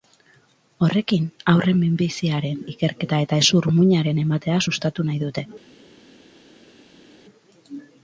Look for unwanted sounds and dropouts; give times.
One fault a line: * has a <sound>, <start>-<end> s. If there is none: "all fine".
all fine